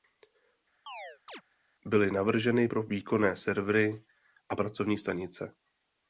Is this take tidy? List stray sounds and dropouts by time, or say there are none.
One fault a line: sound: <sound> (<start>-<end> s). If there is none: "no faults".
sound: chirp (0.9-1.4 s)